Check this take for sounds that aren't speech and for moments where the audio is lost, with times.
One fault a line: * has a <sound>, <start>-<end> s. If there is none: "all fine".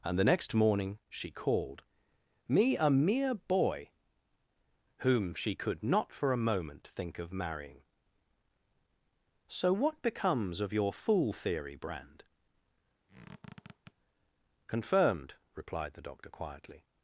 * has a squeak, 13.1-13.9 s